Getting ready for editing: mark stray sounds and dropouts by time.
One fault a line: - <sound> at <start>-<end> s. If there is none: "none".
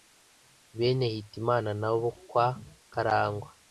none